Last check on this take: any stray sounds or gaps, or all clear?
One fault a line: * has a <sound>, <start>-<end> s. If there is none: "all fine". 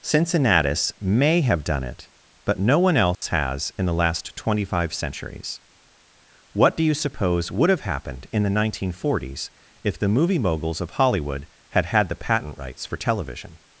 * has a dropout, 3.1-3.2 s